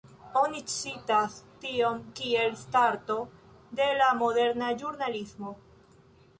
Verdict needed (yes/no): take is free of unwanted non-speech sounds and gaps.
yes